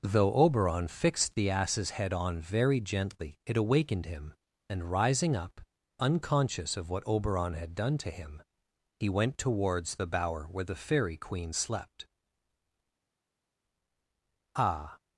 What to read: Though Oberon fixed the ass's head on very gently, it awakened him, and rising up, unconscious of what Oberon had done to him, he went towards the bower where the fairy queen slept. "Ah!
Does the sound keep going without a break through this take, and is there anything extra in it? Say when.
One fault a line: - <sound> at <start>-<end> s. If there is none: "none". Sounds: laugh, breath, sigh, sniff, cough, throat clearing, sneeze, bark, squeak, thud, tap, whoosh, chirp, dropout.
none